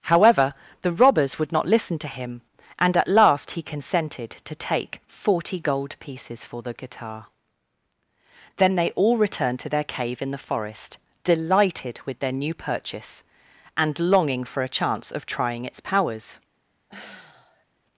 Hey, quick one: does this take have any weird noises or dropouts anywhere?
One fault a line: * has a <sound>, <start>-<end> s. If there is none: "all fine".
* has a sigh, 16.9-17.6 s